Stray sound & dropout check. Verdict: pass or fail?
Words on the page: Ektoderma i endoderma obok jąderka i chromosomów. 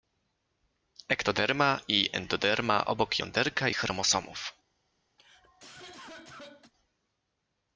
fail